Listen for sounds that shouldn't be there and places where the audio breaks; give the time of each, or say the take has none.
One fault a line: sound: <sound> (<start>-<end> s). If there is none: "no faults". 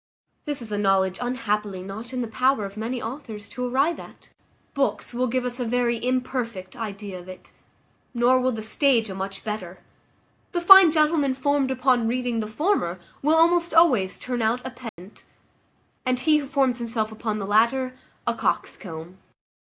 sound: dropout (14.9-15.0 s)